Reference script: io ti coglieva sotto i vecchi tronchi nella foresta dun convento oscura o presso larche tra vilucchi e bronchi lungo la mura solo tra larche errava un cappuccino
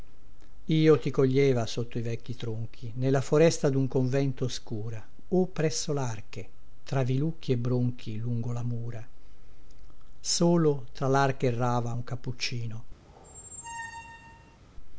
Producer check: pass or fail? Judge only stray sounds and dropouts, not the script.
fail